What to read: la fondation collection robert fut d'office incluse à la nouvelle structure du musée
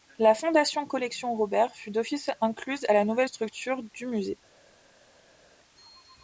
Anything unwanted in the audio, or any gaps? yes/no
no